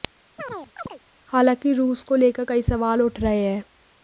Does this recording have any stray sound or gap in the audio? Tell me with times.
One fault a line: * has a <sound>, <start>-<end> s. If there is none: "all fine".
* has a chirp, 0.4-1.0 s